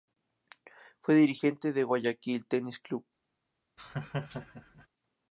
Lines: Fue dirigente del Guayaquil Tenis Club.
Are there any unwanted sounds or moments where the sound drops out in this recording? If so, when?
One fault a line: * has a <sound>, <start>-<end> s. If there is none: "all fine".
* has a laugh, 3.8-4.9 s